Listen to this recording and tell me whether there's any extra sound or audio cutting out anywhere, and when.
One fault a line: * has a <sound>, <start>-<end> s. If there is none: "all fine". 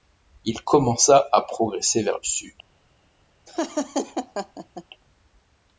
* has a laugh, 3.5-4.8 s